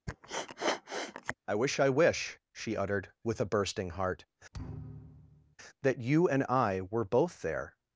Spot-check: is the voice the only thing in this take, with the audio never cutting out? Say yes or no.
no